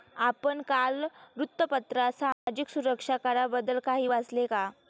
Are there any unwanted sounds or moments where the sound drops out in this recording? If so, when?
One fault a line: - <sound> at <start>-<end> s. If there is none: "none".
- dropout at 2.3-2.5 s